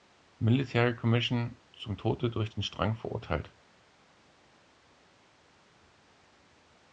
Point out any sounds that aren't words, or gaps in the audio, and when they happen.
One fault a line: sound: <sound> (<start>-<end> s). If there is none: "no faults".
no faults